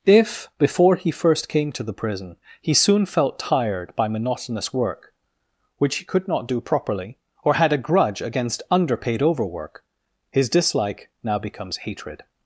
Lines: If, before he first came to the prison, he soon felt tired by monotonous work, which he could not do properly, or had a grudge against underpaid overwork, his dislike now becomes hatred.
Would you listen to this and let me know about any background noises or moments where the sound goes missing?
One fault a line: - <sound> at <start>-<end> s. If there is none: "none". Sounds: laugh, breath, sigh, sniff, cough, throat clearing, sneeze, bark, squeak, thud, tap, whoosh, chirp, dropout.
none